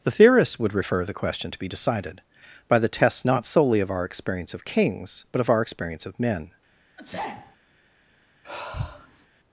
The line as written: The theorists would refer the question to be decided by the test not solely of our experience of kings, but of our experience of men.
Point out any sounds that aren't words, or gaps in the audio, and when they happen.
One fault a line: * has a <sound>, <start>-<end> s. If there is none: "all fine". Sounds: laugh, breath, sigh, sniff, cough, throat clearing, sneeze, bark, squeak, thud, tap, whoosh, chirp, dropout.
* has a sneeze, 7.0-7.6 s
* has a sigh, 8.4-9.3 s